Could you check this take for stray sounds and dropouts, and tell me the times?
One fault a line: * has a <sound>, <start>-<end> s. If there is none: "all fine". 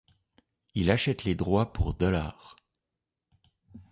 all fine